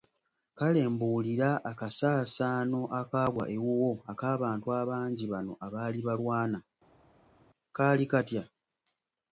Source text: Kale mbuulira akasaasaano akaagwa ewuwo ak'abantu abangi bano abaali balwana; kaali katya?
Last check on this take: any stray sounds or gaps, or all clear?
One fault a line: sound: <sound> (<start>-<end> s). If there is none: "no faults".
no faults